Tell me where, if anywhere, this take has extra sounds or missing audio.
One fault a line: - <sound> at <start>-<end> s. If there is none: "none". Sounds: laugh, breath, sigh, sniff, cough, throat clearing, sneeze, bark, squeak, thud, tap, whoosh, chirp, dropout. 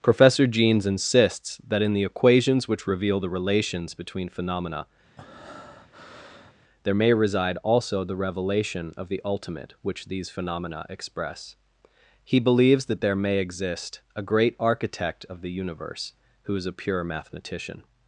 - breath at 5.2-6.5 s